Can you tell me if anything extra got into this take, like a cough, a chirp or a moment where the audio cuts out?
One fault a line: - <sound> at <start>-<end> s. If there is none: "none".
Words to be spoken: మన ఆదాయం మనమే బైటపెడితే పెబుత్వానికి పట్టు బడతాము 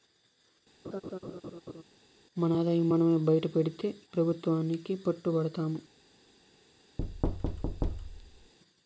- laugh at 0.8-1.8 s
- thud at 7.0-8.5 s